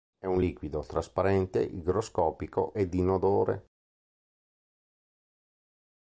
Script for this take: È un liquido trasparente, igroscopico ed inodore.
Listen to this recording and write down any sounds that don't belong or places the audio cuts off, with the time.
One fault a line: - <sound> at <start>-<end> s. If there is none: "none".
none